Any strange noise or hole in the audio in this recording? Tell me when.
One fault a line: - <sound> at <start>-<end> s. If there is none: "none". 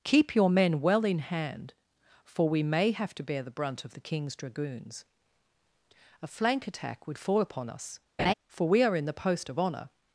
- laugh at 8.2-8.3 s